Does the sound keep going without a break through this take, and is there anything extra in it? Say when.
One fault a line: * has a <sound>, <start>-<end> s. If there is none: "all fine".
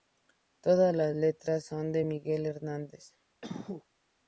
* has a cough, 3.4-3.9 s